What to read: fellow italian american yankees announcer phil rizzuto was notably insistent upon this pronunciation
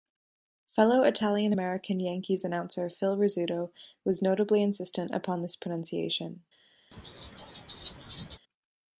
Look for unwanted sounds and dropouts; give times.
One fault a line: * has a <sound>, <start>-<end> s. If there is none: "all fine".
* has a laugh, 6.9-8.4 s